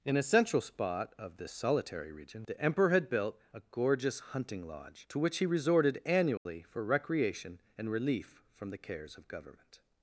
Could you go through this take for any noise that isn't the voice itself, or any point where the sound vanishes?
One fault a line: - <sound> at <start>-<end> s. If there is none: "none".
- dropout at 6.4-6.5 s